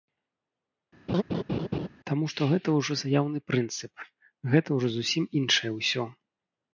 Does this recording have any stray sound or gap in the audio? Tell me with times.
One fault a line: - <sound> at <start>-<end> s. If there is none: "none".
- laugh at 1.1-1.9 s